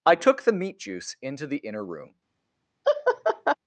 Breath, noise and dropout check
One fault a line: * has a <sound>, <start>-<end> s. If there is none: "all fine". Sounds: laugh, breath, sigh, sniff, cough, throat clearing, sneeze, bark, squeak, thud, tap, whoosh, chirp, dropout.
* has a laugh, 2.8-3.6 s